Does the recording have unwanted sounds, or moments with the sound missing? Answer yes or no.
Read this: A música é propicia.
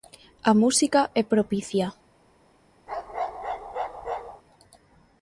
yes